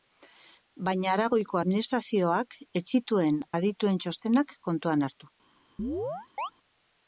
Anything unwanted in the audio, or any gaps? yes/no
yes